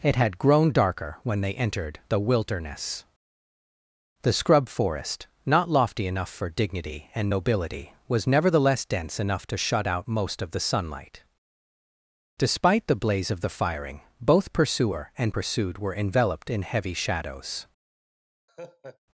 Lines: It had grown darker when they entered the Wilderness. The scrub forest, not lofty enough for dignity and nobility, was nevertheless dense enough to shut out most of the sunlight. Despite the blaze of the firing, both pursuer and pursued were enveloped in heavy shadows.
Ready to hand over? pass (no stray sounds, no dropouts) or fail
fail